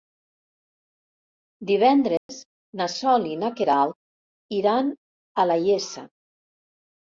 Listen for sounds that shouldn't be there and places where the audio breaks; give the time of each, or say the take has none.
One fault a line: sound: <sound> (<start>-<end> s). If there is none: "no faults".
sound: dropout (2.2-2.3 s)